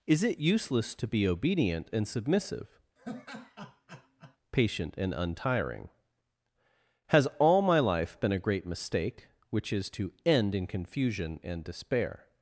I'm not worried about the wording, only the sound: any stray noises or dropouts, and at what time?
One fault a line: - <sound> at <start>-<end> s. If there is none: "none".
- laugh at 3.0-4.4 s